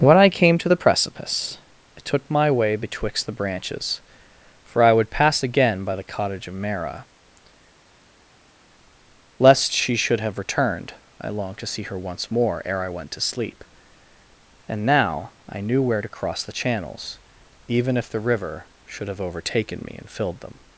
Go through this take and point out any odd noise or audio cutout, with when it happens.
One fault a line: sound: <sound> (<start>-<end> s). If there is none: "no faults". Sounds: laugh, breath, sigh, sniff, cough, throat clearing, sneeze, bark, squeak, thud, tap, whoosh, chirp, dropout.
no faults